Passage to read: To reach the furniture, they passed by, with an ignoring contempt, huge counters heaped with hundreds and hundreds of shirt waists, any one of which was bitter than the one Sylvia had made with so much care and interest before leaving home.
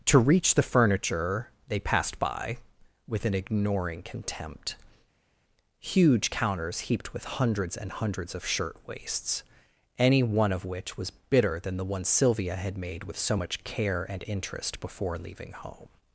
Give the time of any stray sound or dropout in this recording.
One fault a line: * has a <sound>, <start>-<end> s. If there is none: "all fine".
all fine